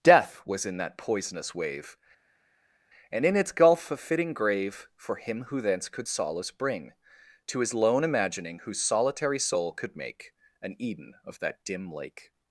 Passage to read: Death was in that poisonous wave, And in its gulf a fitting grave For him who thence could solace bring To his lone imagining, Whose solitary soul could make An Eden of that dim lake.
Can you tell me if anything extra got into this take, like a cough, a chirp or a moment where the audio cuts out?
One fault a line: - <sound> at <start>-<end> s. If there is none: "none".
none